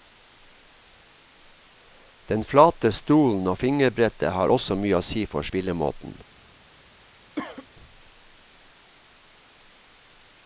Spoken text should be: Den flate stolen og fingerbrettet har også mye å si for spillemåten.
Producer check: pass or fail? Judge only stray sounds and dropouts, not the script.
fail